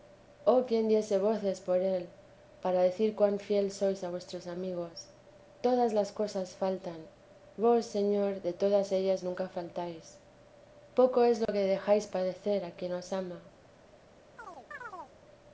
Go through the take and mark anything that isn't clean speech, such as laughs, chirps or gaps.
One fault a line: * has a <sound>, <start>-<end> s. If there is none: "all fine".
* has a dropout, 11.5-11.5 s
* has a chirp, 14.4-15.2 s